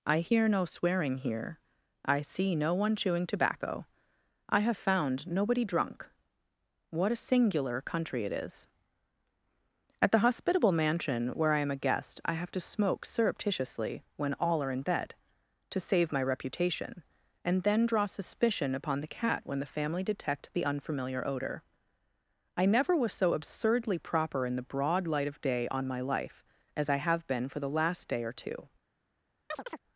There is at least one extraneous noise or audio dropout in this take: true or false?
true